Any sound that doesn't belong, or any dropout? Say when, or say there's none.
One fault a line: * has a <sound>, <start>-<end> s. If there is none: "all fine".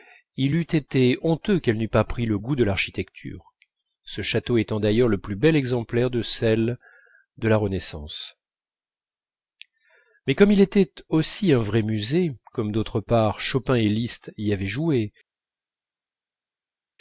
all fine